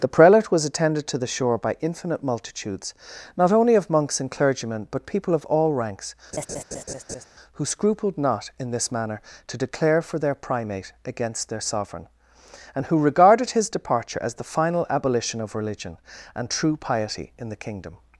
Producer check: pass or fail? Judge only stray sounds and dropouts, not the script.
fail